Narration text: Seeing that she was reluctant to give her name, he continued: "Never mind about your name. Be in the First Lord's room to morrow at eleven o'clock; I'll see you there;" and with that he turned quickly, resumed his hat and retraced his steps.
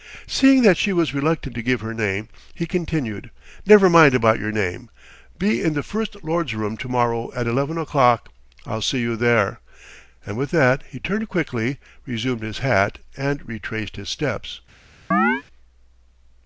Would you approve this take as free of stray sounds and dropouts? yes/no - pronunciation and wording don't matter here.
no